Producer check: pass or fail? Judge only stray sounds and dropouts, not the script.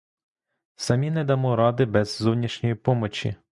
pass